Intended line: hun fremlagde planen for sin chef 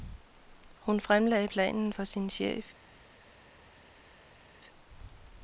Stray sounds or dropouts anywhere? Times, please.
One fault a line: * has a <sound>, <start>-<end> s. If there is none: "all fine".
all fine